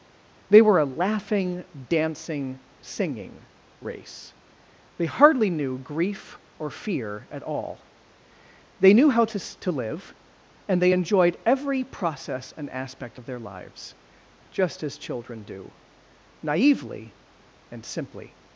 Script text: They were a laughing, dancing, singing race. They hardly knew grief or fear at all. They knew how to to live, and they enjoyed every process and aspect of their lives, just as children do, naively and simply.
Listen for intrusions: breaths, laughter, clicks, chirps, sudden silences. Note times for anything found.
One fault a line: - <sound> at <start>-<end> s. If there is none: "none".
none